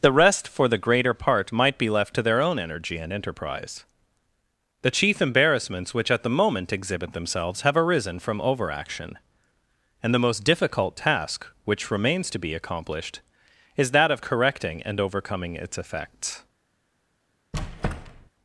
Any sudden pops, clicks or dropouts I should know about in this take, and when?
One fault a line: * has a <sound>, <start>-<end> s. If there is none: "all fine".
* has a squeak, 17.5-18.3 s